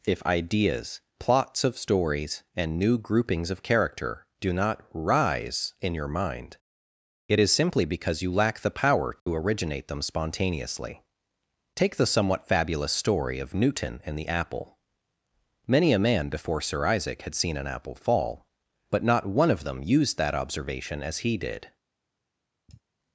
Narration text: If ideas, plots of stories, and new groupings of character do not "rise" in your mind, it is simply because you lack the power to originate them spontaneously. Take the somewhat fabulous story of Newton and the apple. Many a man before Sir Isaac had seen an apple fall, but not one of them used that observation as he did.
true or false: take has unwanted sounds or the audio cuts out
true